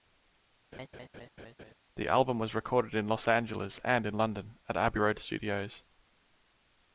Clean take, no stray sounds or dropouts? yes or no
no